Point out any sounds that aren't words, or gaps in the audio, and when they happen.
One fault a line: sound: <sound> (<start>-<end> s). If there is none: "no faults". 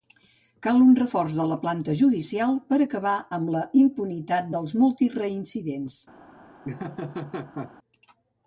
sound: laugh (6.6-7.7 s)